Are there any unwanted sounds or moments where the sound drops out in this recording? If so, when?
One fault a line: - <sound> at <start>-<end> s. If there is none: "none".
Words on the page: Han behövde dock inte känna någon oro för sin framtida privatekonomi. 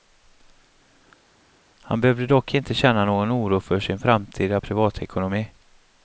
none